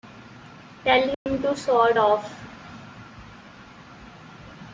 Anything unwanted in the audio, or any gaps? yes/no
yes